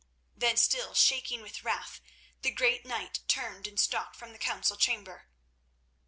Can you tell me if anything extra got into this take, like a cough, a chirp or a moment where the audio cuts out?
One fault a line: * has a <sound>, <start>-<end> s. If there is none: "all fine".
all fine